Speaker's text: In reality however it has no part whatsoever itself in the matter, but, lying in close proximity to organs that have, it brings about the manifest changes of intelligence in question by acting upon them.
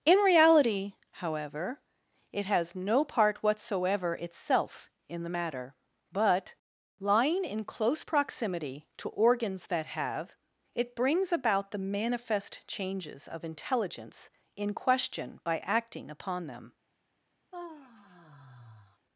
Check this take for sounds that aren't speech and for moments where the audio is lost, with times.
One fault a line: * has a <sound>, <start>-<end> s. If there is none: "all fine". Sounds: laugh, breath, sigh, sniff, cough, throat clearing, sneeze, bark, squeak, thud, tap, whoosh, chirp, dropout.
* has a sigh, 17.5-19.0 s